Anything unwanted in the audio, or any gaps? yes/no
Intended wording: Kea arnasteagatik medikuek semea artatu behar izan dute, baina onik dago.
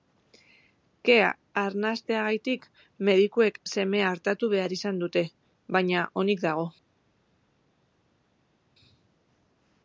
no